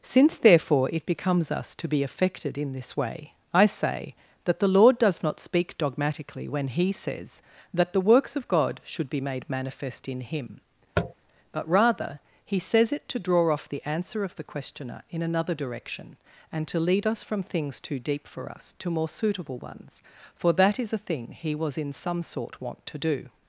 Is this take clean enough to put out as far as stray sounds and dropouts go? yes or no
no